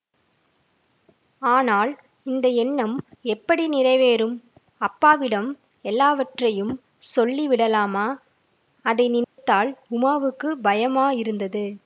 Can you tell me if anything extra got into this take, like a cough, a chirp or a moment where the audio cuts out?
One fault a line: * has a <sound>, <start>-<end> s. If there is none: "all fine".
* has a dropout, 9.2-9.4 s